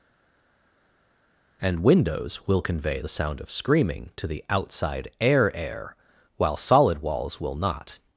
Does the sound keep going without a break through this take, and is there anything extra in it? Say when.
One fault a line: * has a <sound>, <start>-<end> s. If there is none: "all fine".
all fine